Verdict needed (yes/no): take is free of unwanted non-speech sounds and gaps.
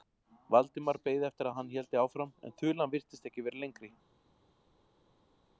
yes